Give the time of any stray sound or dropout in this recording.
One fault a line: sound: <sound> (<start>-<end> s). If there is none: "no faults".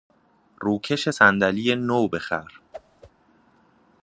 sound: whoosh (2.7-3.1 s)